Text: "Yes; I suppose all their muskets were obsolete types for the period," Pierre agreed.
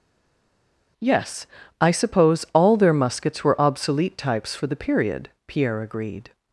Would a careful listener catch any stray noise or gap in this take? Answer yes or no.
no